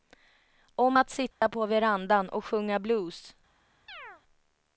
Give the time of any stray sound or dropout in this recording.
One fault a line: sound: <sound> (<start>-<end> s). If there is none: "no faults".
sound: dropout (1.3-1.4 s)
sound: chirp (3.9-4.2 s)